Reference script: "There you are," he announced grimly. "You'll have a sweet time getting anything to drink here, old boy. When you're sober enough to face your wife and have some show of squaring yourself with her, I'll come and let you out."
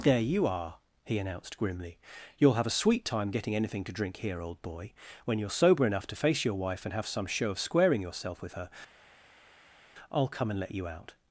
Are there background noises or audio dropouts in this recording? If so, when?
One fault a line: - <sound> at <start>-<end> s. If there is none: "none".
none